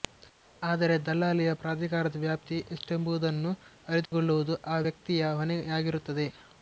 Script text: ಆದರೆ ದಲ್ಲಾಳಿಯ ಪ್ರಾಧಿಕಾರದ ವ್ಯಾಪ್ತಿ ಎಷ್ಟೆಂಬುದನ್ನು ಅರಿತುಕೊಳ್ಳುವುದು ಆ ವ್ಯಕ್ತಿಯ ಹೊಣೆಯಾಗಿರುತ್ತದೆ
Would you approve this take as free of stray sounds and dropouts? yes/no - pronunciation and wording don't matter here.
no